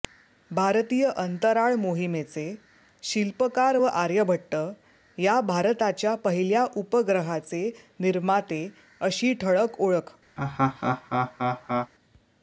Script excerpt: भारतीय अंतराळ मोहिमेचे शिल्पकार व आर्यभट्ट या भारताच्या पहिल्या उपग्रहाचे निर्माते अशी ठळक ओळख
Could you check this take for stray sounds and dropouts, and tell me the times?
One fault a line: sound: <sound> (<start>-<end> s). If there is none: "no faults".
sound: laugh (10.4-11.9 s)